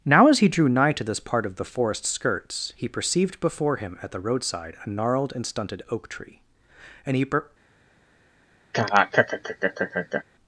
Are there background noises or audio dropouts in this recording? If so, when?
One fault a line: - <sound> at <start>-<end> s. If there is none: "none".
- laugh at 8.7-10.2 s